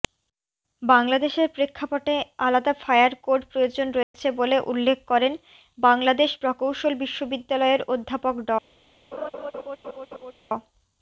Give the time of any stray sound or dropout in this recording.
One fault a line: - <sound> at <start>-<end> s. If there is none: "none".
- dropout at 4.0-4.1 s
- laugh at 9.1-10.3 s